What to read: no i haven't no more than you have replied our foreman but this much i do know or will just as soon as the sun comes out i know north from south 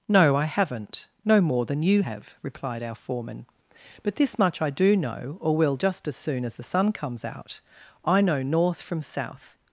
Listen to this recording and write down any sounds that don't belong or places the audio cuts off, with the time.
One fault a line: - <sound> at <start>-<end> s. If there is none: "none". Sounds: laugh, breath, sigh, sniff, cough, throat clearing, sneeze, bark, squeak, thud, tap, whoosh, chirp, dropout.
none